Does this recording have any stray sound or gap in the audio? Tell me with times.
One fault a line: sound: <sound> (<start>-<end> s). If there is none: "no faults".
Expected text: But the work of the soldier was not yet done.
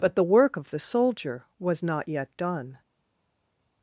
no faults